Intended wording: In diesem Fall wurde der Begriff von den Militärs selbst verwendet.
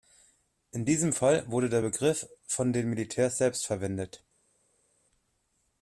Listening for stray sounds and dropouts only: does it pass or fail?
pass